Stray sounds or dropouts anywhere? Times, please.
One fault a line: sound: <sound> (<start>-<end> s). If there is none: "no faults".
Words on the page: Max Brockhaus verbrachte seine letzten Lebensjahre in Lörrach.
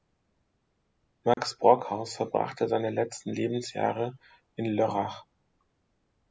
sound: dropout (1.3-1.4 s)